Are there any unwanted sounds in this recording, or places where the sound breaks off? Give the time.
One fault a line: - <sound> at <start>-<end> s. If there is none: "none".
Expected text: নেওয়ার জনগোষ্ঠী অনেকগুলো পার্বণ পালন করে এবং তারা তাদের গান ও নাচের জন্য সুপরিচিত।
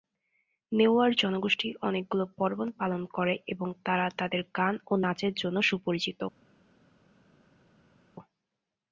none